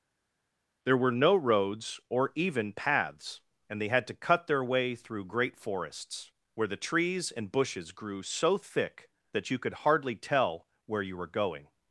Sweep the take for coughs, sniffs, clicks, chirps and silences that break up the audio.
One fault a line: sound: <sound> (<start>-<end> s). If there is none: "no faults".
no faults